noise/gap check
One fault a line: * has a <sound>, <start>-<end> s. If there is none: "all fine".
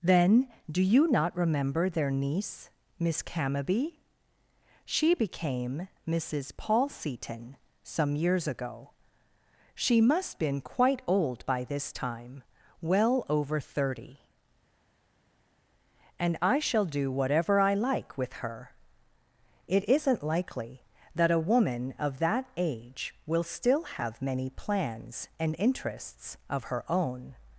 all fine